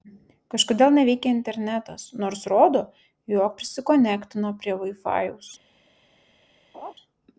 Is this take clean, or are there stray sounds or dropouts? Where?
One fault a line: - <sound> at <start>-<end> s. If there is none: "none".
- laugh at 6.7-6.9 s